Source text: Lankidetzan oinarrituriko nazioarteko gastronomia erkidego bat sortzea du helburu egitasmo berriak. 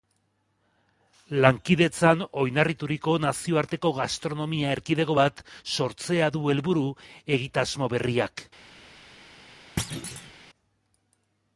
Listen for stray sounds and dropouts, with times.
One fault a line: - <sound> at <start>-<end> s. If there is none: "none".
- thud at 9.8-10.3 s